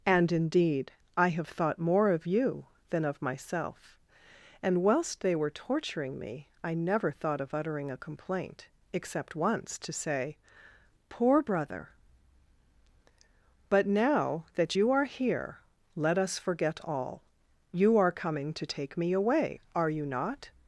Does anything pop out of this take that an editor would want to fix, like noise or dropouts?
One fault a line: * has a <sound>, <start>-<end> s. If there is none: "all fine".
all fine